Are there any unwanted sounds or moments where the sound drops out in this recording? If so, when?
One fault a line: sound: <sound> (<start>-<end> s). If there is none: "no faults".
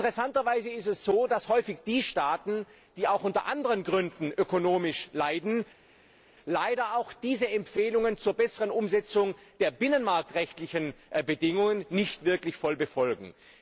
no faults